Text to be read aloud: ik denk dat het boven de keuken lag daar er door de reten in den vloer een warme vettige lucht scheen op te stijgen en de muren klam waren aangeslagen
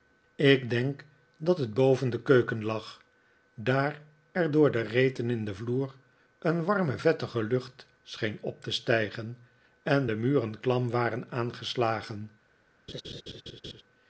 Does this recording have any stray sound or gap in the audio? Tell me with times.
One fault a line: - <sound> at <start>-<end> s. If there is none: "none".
- laugh at 12.9-13.8 s